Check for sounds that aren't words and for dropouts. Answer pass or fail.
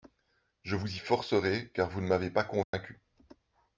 fail